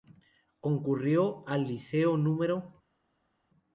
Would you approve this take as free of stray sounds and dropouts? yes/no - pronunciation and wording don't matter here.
yes